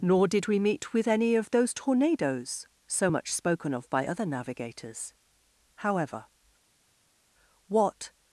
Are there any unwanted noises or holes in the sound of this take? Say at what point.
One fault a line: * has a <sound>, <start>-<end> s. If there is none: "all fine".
all fine